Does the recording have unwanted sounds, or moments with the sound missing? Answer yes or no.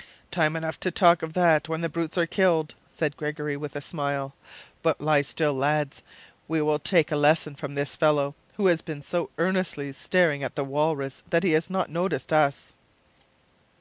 no